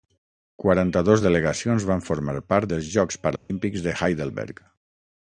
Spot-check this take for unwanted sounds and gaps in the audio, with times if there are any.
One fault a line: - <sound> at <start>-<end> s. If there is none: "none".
- dropout at 3.4-3.5 s